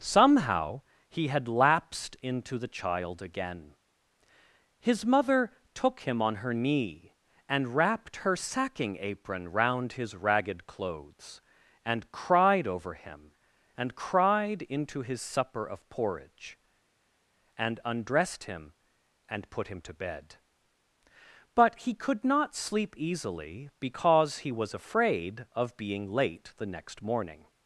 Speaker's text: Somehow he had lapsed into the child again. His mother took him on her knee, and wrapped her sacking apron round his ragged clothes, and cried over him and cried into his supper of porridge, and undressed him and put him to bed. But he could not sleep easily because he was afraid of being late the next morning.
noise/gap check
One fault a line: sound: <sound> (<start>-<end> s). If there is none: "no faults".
no faults